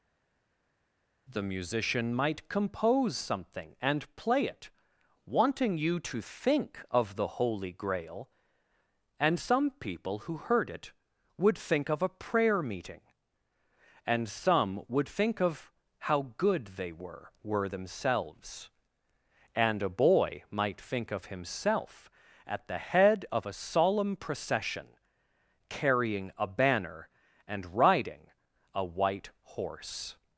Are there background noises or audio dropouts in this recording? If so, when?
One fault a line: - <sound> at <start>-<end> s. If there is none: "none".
none